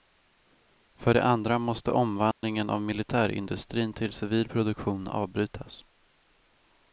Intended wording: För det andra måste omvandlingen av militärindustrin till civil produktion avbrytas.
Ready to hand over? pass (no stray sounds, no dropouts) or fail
fail